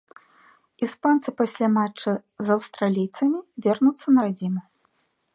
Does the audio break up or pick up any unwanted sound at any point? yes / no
no